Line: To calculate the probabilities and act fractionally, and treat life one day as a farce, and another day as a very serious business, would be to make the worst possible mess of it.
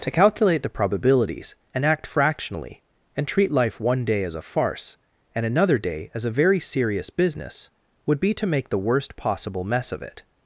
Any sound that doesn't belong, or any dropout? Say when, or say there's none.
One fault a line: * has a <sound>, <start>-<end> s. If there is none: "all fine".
all fine